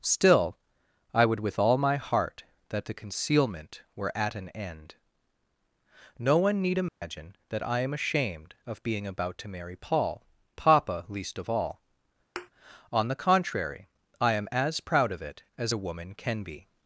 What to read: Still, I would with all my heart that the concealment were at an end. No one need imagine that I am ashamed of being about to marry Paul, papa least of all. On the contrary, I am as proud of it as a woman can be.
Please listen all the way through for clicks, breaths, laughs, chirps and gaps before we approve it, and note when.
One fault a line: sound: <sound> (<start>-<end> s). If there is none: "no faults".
sound: dropout (6.9-7.0 s)
sound: thud (12.4-12.5 s)